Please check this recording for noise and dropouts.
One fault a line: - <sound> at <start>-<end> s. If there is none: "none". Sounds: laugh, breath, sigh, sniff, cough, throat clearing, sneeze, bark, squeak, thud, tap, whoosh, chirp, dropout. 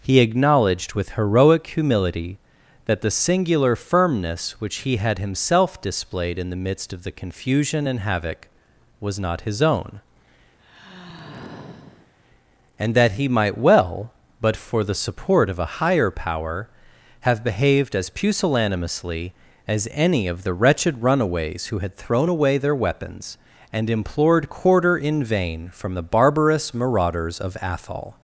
- sigh at 10.6-12.1 s